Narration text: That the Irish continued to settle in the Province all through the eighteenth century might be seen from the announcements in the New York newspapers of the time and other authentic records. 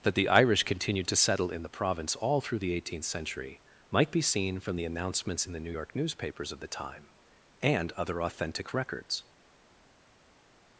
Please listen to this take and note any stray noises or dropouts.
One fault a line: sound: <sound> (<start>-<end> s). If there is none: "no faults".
no faults